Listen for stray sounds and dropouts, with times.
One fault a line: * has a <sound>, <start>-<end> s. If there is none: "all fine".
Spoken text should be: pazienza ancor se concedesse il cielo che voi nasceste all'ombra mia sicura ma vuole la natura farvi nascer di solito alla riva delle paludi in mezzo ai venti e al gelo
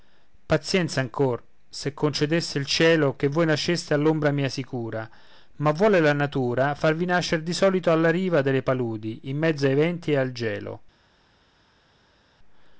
all fine